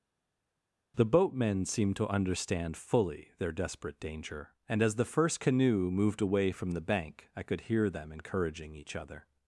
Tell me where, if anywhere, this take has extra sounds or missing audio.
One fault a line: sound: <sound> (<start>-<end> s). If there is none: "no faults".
no faults